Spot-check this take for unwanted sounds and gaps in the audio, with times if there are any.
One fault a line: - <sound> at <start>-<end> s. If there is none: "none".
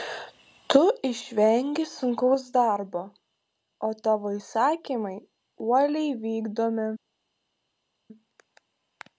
none